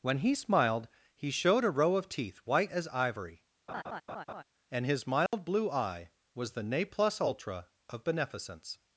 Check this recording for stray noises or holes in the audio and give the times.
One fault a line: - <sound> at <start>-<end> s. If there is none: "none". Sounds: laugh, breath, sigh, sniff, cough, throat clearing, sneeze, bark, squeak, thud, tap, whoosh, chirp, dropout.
- laugh at 3.7-4.4 s
- dropout at 5.3-5.3 s